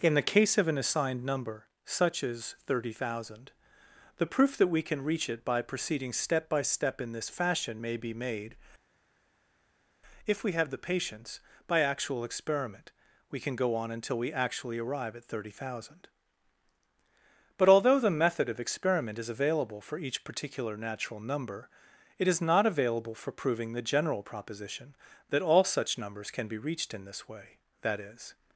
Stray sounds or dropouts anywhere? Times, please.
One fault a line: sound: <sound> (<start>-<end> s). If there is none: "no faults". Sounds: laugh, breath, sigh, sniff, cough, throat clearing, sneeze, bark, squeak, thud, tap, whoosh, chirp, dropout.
no faults